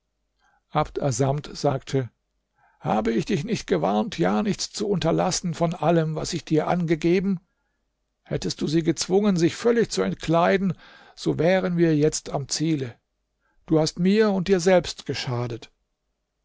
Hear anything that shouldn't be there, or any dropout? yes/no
no